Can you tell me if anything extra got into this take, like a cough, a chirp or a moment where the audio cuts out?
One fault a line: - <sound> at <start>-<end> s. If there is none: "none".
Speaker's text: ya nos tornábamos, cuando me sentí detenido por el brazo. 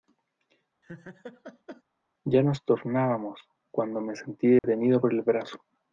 - laugh at 0.8-1.8 s
- dropout at 4.6-4.6 s